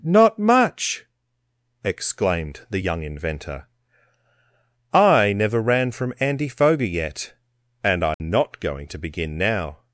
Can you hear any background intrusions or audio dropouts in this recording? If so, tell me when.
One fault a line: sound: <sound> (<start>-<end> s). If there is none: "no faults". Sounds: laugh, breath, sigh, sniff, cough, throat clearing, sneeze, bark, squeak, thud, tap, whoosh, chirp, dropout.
sound: dropout (8.1-8.2 s)